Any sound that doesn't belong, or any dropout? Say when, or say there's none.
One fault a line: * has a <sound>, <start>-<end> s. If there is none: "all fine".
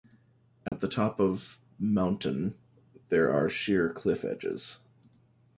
* has a dropout, 0.7-0.7 s